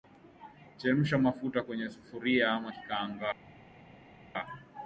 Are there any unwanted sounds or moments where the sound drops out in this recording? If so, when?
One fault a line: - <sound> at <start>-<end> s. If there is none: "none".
none